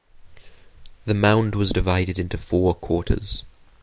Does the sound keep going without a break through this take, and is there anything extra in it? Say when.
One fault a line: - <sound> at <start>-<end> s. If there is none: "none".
none